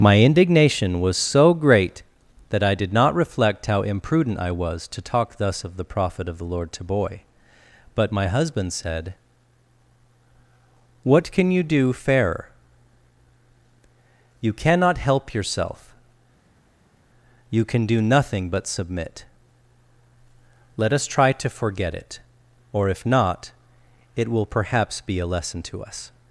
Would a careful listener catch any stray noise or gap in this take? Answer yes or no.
no